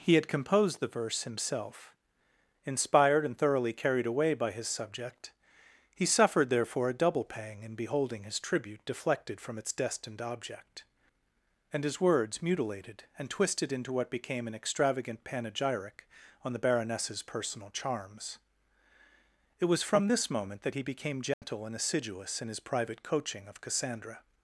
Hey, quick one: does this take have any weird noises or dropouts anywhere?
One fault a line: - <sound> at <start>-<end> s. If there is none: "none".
- dropout at 21.3-21.4 s